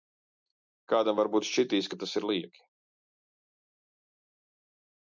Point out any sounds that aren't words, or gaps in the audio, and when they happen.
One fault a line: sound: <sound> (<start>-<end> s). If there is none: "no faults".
no faults